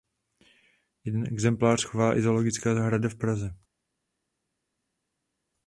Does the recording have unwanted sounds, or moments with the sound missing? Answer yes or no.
no